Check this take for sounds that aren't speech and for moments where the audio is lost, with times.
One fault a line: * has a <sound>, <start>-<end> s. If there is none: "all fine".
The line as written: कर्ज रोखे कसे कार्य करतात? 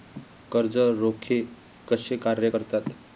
all fine